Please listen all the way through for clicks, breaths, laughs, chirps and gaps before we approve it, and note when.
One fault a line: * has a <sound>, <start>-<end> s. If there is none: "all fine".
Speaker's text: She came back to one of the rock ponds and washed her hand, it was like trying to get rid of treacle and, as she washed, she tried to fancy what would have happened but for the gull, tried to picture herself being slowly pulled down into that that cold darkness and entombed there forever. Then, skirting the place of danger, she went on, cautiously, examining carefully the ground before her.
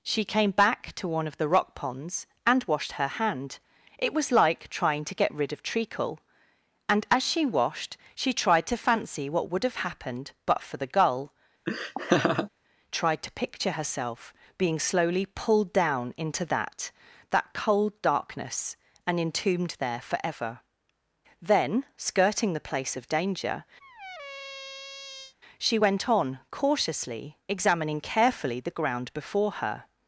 * has a laugh, 11.7-12.5 s
* has a squeak, 23.8-25.3 s